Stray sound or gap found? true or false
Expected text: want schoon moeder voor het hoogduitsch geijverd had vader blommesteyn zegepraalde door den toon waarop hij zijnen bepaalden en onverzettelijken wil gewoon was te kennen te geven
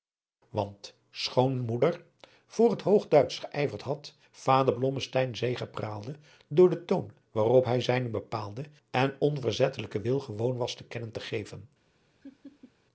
true